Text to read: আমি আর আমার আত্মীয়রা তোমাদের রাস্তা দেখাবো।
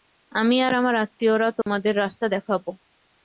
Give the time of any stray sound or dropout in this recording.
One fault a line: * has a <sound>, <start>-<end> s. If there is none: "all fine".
* has a dropout, 1.6-1.7 s